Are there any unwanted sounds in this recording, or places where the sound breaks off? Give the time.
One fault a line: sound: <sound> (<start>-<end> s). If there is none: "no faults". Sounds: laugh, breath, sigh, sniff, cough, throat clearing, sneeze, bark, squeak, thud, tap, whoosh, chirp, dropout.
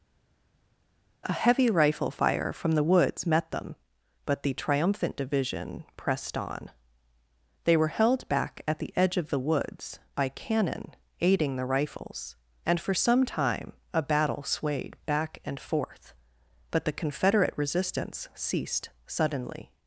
no faults